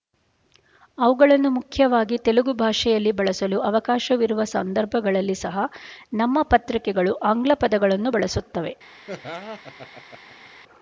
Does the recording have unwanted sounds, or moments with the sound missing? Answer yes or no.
yes